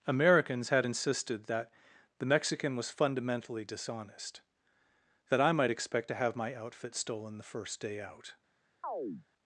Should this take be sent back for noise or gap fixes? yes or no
yes